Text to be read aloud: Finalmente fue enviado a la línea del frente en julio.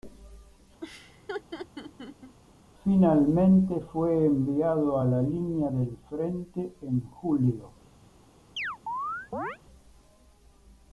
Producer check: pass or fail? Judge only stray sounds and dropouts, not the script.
fail